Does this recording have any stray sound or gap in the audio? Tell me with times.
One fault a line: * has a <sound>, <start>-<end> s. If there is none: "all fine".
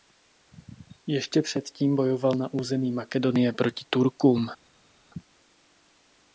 all fine